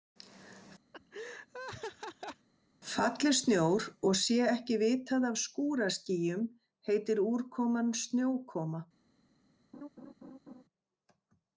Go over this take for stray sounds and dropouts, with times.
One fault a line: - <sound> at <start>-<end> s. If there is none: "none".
- laugh at 0.9-2.5 s
- laugh at 9.7-10.6 s